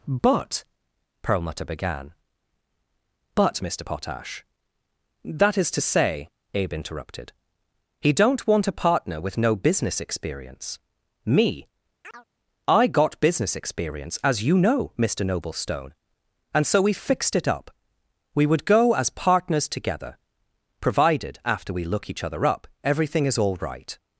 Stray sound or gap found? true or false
true